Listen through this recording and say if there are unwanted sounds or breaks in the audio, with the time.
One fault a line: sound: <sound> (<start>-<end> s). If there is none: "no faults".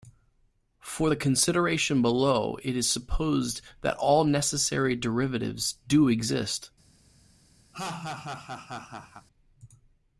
sound: laugh (7.7-9.3 s)